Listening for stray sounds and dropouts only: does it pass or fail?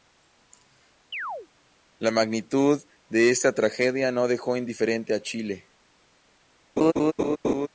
fail